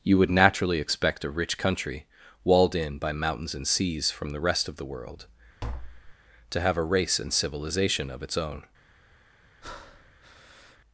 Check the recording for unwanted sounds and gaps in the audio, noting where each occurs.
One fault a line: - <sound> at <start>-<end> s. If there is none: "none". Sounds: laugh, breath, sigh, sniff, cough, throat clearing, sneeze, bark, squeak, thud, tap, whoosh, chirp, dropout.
- tap at 5.6-6.2 s
- breath at 9.6-10.8 s